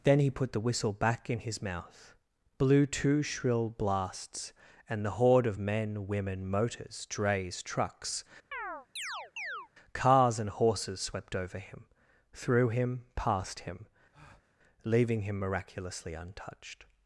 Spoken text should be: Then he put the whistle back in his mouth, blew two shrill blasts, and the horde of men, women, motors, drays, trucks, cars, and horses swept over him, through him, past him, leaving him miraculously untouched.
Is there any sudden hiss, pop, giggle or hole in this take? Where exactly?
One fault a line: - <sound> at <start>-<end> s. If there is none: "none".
- chirp at 8.5-9.7 s
- breath at 14.1-14.6 s